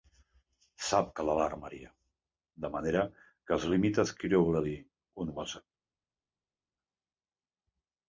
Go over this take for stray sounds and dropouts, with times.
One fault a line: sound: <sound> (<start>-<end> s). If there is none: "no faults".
no faults